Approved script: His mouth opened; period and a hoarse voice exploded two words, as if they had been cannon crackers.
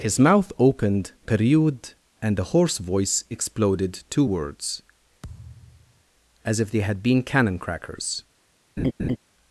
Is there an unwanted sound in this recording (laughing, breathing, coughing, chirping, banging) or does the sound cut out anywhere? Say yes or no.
yes